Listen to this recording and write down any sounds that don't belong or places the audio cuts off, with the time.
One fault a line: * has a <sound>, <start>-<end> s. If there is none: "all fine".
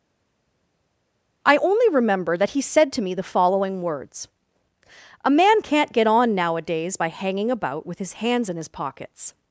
all fine